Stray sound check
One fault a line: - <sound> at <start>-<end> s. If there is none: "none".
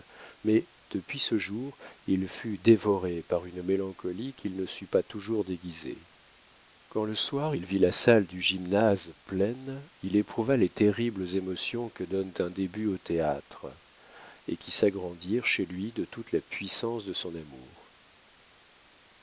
none